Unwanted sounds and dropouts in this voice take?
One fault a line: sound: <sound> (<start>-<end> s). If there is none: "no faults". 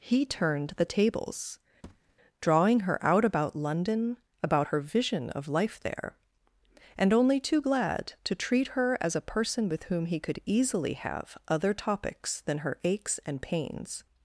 sound: thud (1.8-2.2 s)